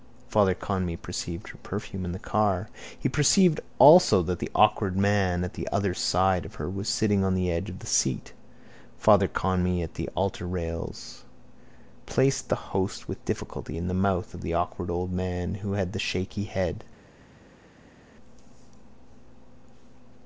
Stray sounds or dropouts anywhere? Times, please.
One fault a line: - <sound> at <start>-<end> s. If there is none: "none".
none